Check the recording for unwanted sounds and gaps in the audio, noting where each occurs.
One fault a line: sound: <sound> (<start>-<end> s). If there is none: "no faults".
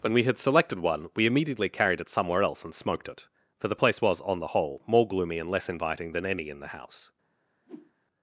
sound: whoosh (7.7-7.9 s)